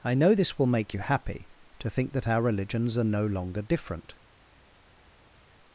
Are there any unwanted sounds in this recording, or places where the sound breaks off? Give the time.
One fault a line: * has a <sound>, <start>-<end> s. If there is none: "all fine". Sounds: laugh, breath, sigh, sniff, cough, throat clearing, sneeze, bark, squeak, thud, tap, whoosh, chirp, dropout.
all fine